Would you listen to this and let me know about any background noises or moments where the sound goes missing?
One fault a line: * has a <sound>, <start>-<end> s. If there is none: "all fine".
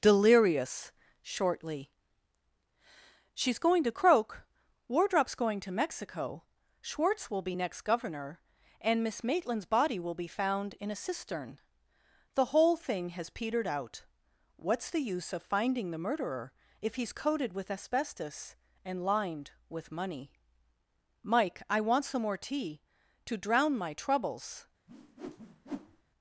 * has a whoosh, 24.9-26.0 s